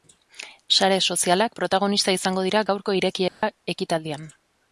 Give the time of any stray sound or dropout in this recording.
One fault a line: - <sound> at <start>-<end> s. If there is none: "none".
- dropout at 3.3-3.4 s